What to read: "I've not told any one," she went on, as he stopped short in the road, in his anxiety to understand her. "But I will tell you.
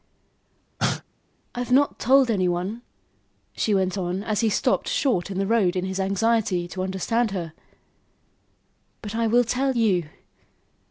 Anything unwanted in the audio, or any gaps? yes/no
yes